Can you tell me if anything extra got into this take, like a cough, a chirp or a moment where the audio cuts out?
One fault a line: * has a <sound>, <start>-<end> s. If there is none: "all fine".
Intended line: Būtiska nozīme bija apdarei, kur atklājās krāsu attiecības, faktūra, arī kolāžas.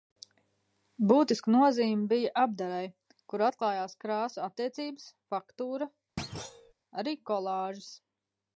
* has a thud, 6.2-6.7 s